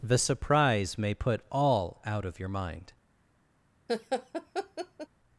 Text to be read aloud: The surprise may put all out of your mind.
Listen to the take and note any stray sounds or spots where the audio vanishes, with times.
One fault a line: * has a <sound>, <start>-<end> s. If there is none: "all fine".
* has a laugh, 3.9-5.1 s